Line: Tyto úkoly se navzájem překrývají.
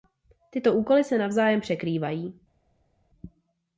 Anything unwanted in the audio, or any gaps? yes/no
no